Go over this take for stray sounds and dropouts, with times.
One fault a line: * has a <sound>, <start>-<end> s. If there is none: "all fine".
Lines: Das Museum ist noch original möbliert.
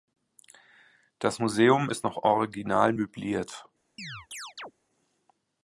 * has a chirp, 4.0-4.7 s